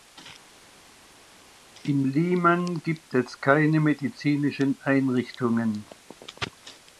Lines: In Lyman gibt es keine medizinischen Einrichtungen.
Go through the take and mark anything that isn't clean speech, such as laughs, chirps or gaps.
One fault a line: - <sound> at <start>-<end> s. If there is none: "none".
none